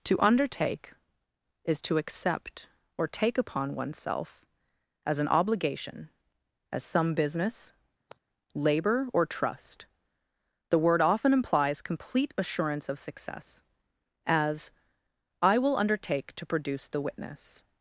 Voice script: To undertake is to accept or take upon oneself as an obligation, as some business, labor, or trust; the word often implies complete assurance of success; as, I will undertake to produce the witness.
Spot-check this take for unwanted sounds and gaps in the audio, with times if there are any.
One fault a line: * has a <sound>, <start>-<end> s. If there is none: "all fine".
* has a sigh, 8.0-8.2 s